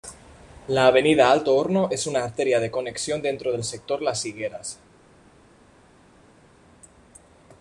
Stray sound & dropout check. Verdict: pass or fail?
pass